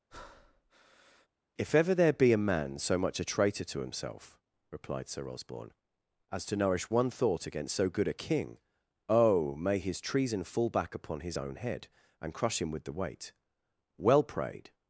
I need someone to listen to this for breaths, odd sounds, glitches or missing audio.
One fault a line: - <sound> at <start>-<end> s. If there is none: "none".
- breath at 0.1-1.3 s